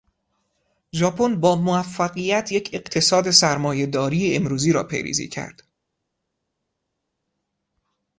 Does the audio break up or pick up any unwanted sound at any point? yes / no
no